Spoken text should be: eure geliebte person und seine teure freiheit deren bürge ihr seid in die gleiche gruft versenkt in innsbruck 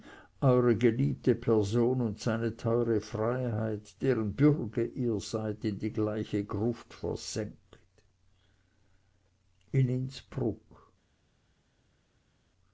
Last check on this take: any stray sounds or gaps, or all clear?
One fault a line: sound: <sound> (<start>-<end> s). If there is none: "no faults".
no faults